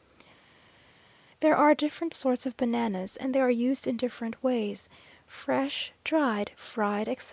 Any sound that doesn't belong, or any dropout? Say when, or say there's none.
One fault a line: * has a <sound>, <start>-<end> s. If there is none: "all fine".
all fine